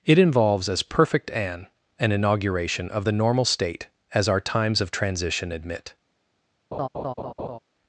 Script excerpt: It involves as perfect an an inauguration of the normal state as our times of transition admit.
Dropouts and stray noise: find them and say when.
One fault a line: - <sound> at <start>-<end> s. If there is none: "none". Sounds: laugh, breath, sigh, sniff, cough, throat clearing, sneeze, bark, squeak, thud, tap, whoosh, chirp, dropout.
- laugh at 6.7-7.6 s